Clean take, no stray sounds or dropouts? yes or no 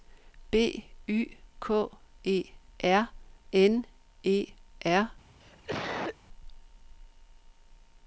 no